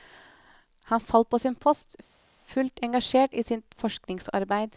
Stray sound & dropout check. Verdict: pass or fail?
pass